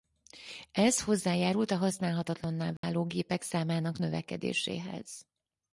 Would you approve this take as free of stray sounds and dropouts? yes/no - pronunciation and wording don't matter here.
no